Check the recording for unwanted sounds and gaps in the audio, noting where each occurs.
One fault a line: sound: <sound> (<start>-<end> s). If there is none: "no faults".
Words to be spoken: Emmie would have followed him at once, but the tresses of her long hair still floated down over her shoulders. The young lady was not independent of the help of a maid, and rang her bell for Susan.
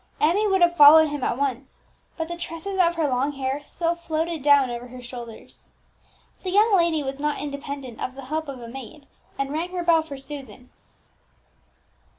no faults